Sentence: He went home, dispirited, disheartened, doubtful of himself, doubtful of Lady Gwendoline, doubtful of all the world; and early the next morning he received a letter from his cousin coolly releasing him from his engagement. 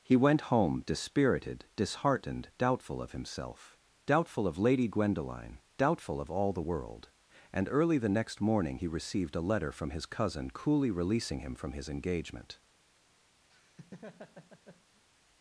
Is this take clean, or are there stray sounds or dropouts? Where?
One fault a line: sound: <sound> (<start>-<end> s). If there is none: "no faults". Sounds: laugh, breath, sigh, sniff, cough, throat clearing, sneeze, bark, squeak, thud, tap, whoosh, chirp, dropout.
sound: laugh (13.5-15.0 s)